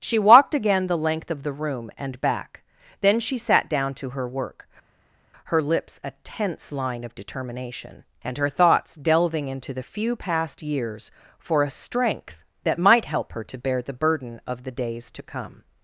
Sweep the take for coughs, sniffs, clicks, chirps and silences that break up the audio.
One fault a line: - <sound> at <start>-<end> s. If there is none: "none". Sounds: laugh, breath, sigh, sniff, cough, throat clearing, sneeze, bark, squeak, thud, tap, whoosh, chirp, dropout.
none